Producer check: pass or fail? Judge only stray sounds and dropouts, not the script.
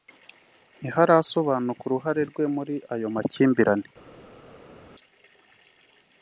pass